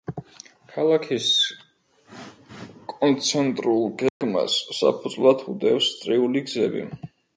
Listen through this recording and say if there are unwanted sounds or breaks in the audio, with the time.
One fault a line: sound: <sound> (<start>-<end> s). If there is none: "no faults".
sound: dropout (4.1-4.2 s)